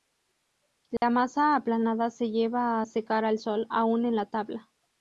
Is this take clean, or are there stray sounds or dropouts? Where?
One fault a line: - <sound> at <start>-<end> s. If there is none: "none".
- dropout at 1.0-1.0 s